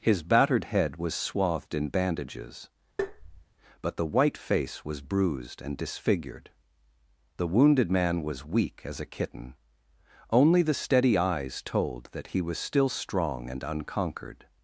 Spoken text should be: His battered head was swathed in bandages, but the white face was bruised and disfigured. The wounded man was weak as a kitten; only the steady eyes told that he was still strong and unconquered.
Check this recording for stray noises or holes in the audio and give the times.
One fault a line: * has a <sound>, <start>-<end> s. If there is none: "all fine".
* has a tap, 3.0-3.5 s